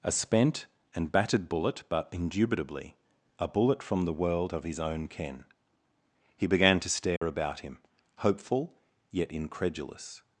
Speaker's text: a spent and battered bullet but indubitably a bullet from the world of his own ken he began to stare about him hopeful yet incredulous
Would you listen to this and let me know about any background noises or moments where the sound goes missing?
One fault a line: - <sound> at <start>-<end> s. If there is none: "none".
- dropout at 7.2-7.2 s